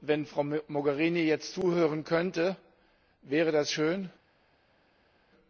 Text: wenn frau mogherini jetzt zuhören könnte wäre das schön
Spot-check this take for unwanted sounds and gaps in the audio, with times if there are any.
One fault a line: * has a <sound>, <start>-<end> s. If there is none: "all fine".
all fine